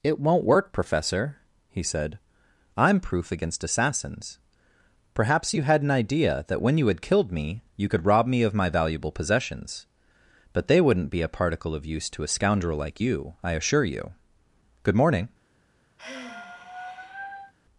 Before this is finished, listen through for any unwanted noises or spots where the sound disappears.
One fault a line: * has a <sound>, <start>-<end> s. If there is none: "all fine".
* has a sigh, 16.0-17.5 s